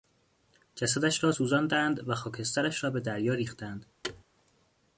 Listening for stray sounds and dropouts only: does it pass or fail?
fail